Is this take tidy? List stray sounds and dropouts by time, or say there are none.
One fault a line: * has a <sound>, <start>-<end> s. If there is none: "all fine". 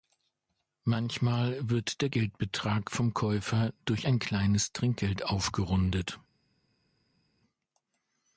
all fine